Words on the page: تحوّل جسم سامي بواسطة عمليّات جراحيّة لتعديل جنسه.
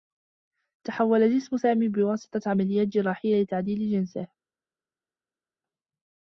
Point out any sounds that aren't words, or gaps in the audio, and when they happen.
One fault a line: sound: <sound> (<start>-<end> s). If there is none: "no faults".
no faults